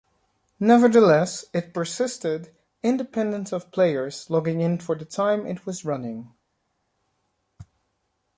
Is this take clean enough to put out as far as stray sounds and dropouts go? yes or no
yes